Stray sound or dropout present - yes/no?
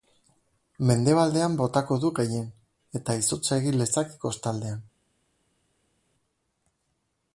no